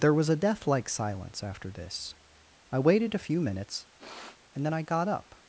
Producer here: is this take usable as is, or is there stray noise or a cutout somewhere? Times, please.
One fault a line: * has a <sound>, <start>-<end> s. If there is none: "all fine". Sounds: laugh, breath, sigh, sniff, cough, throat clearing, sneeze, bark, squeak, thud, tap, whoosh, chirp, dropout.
* has a sniff, 4.0-4.4 s